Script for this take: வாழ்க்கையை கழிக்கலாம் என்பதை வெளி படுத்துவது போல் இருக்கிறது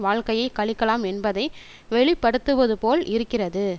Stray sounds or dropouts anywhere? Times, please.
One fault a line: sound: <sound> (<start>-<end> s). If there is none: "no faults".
no faults